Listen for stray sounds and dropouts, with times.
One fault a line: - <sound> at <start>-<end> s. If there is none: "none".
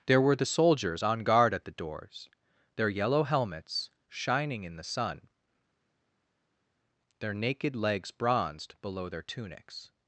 none